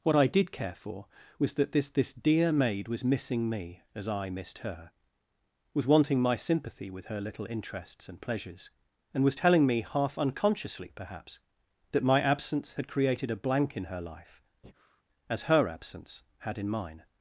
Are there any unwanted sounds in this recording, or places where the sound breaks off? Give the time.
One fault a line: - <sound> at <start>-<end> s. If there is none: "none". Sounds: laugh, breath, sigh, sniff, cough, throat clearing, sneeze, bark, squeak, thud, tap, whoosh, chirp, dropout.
- breath at 14.6-15.0 s